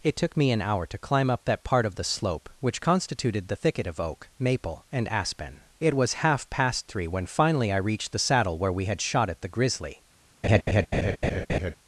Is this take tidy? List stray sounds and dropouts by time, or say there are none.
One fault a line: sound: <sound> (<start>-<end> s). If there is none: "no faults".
sound: laugh (10.4-11.8 s)